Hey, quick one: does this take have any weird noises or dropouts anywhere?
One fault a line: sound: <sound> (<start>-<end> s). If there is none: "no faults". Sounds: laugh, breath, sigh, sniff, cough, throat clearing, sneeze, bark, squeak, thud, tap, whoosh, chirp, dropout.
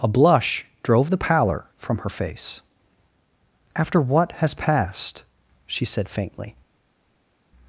no faults